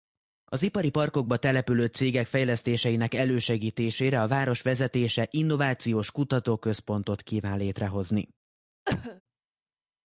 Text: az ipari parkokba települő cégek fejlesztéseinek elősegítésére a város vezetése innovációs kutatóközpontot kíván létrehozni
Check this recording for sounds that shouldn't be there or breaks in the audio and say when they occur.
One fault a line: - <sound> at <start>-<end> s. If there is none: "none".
- cough at 8.9-9.2 s